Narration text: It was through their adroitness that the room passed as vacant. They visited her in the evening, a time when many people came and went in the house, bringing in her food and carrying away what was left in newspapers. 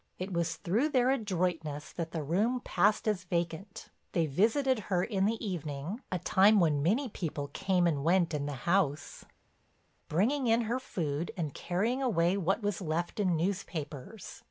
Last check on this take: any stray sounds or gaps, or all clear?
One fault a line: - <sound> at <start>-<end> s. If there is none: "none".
none